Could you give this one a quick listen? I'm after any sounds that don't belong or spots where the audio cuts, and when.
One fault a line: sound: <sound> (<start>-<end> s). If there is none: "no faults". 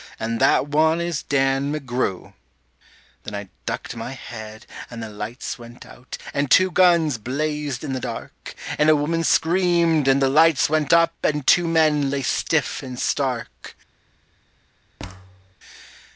sound: thud (15.0-15.6 s)